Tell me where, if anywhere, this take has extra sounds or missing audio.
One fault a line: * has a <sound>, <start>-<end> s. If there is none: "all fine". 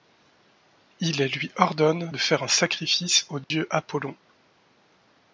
* has a dropout, 3.4-3.5 s